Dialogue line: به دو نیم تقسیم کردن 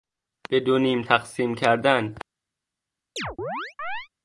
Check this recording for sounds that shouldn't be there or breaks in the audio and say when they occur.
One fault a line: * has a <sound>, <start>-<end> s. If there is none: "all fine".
* has a chirp, 3.2-4.1 s